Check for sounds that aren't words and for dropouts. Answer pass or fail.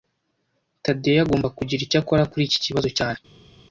pass